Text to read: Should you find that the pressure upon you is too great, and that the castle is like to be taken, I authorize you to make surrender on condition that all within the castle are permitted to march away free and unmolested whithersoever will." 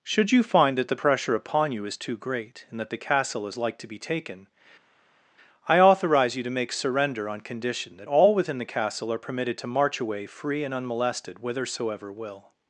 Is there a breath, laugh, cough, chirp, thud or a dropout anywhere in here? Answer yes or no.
no